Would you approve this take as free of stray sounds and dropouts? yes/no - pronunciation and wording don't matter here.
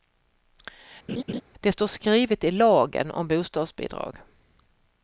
no